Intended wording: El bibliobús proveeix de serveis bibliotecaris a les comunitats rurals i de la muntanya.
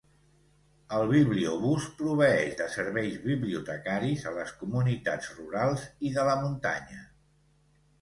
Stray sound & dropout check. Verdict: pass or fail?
pass